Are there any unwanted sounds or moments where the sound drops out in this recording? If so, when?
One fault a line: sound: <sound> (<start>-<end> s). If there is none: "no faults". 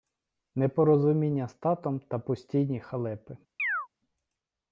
sound: chirp (3.6-3.9 s)